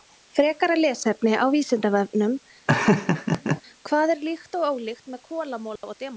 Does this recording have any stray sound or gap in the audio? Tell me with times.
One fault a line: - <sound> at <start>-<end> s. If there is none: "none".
- laugh at 2.7-3.6 s
- dropout at 5.8-5.8 s